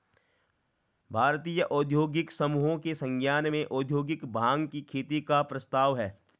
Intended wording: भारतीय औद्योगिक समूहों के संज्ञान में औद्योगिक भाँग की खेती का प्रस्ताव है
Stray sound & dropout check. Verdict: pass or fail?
pass